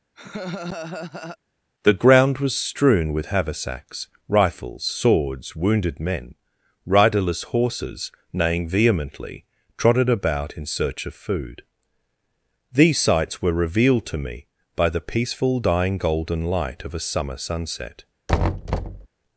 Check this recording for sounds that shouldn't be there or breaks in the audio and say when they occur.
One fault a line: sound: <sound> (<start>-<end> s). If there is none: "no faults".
sound: laugh (0.2-1.4 s)
sound: thud (18.3-19.1 s)